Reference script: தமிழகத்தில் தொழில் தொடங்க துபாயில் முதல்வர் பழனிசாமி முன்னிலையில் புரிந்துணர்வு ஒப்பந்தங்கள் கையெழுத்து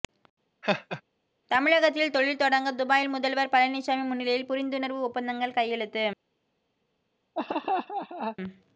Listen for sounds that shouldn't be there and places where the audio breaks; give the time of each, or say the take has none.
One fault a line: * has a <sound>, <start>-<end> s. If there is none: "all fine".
* has a laugh, 0.6-1.0 s
* has a laugh, 7.4-8.4 s